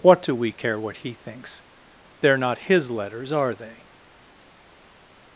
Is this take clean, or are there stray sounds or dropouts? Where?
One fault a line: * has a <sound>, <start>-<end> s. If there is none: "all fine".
all fine